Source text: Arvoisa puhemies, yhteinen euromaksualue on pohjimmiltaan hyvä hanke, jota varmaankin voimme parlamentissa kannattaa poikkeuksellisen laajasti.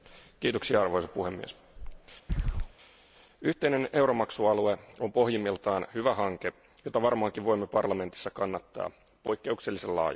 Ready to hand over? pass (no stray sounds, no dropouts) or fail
fail